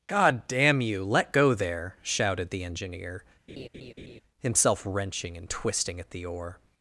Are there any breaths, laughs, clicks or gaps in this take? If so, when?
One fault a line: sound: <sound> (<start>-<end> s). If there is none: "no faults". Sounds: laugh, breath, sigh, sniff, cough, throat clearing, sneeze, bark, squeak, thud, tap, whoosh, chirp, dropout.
sound: laugh (3.5-4.2 s)